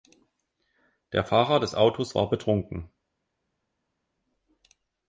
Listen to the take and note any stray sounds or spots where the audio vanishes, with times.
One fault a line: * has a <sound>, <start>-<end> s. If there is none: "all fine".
all fine